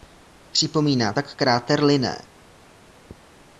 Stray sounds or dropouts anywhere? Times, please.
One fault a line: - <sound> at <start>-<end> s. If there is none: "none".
none